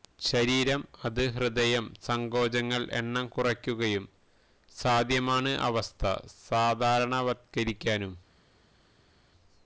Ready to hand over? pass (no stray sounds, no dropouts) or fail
pass